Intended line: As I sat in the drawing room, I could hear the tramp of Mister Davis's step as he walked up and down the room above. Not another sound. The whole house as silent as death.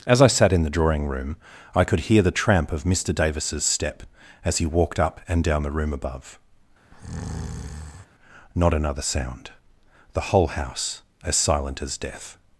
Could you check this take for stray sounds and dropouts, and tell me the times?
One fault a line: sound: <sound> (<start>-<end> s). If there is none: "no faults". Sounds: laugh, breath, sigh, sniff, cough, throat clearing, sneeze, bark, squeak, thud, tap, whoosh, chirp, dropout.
sound: breath (6.9-8.1 s)